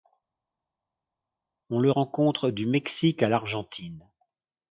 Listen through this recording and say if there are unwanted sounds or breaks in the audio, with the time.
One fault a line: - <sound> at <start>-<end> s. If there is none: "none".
none